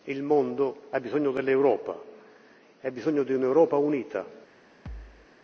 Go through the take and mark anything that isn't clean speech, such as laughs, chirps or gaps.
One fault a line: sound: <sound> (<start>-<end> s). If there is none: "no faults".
sound: thud (4.9-5.3 s)